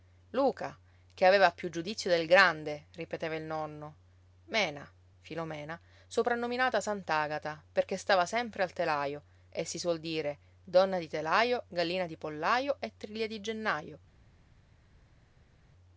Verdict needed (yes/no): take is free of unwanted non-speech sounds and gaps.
yes